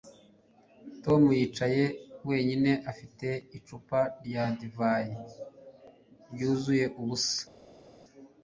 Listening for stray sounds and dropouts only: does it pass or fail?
pass